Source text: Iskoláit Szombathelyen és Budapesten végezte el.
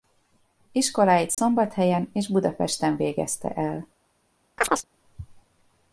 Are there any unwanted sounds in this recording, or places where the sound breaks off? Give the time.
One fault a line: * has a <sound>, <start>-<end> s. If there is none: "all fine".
* has a dropout, 1.3-1.4 s
* has a chirp, 4.6-4.9 s